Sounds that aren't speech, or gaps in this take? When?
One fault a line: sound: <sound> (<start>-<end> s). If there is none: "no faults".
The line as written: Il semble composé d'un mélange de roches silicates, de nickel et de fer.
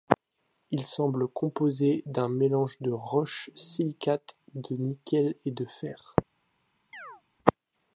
sound: chirp (6.9-7.2 s)